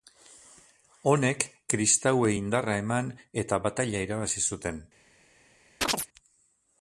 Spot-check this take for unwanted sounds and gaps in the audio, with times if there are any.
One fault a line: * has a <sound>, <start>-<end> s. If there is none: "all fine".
* has a chirp, 5.8-6.1 s